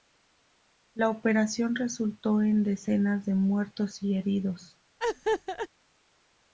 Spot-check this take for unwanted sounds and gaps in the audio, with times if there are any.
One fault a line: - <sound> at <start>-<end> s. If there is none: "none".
- laugh at 5.0-5.7 s